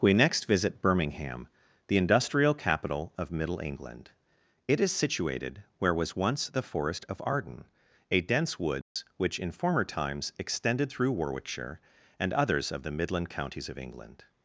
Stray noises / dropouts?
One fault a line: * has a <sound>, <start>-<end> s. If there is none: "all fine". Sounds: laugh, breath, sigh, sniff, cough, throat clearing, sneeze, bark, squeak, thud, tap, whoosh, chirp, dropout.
* has a dropout, 8.8-9.0 s